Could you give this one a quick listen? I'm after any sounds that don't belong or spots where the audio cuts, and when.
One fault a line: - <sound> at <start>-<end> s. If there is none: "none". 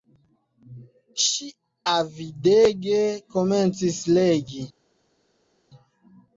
none